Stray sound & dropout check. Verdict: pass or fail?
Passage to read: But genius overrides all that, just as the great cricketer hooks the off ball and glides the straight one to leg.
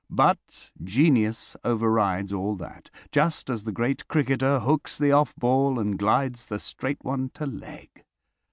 pass